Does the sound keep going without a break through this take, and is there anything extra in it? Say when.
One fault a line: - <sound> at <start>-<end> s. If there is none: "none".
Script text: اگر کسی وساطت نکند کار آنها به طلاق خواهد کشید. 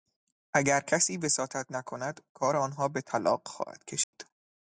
- dropout at 4.0-4.1 s